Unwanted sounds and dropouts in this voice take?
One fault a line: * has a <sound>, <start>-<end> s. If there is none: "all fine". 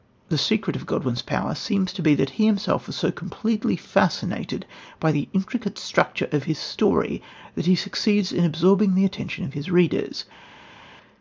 all fine